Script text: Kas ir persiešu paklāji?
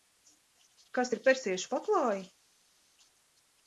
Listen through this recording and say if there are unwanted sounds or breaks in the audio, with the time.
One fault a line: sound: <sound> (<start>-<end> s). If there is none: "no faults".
no faults